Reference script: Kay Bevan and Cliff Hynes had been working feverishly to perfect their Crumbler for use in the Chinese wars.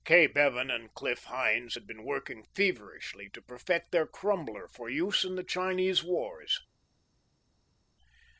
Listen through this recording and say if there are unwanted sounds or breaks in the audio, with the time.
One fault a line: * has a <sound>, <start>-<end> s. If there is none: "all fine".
all fine